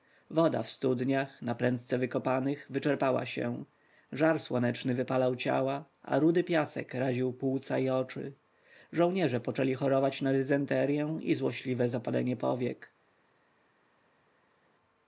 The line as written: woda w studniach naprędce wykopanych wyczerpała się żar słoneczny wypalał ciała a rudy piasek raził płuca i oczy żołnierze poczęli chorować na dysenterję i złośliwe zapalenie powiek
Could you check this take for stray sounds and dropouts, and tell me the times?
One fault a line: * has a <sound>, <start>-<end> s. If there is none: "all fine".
all fine